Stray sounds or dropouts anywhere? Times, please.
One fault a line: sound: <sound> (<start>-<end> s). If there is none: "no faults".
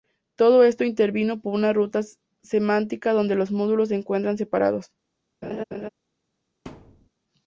sound: laugh (5.4-5.9 s)
sound: thud (6.7-7.1 s)